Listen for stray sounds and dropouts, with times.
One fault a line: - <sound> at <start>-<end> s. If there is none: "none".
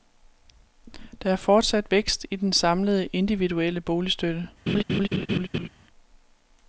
- laugh at 4.7-5.7 s